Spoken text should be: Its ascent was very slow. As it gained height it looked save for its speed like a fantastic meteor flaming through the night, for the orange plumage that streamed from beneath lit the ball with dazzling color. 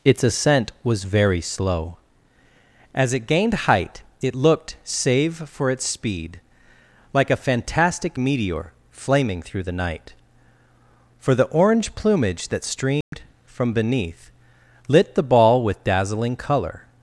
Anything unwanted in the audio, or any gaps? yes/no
yes